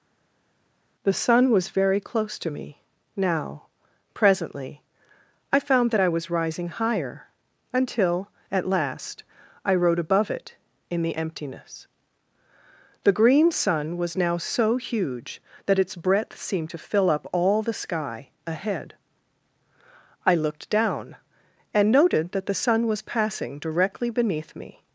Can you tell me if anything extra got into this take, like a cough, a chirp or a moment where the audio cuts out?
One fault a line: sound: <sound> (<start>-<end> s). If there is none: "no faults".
no faults